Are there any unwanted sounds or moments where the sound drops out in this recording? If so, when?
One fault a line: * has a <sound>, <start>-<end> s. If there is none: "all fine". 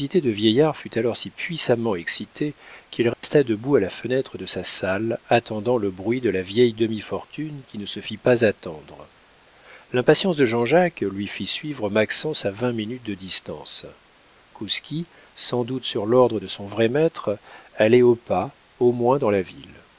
* has a dropout, 3.1-3.2 s